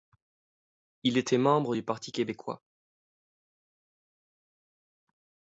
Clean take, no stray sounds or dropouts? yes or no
yes